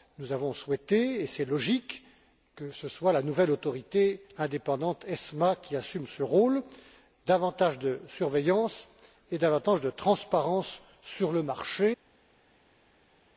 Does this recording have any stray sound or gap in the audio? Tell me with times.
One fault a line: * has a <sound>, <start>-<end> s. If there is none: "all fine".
all fine